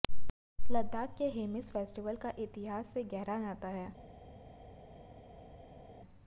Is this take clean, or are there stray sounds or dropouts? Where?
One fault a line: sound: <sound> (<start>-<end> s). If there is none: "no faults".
no faults